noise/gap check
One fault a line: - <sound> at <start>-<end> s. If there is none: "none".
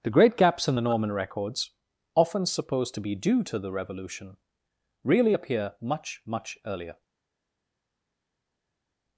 none